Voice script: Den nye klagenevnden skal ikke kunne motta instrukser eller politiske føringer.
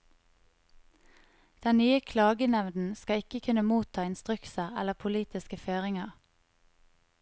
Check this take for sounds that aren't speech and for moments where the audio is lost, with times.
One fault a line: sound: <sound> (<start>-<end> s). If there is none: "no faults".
no faults